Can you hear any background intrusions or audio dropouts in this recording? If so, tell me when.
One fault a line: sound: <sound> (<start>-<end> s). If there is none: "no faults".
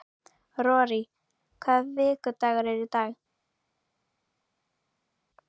no faults